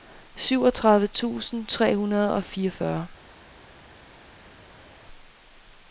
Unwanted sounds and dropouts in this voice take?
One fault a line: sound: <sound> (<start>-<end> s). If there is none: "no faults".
no faults